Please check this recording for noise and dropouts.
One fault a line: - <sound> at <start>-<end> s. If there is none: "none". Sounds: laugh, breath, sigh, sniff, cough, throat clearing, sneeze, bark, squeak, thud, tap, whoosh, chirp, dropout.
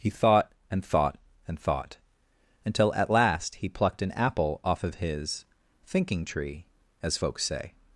none